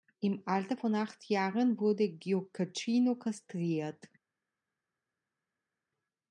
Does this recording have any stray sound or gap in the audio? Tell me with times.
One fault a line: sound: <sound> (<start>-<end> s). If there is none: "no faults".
no faults